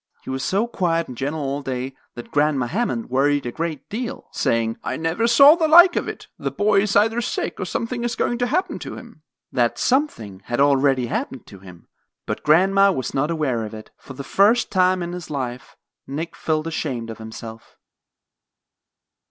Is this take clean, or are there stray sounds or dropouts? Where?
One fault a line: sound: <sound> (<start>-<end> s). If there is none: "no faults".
no faults